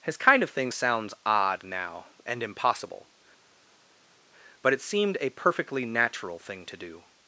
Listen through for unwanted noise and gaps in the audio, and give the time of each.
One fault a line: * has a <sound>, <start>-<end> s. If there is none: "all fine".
all fine